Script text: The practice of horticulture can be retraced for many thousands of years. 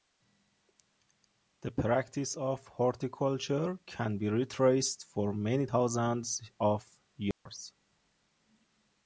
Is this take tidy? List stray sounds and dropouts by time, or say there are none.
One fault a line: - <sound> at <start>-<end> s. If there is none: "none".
- dropout at 7.3-7.5 s